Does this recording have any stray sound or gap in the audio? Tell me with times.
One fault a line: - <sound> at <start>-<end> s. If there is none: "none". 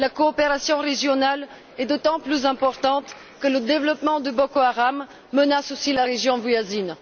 none